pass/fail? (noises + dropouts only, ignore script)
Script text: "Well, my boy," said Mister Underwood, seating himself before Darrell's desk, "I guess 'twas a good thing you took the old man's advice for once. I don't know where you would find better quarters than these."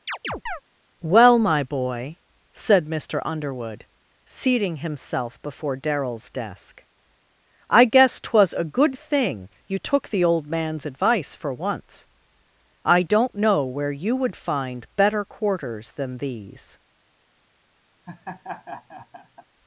fail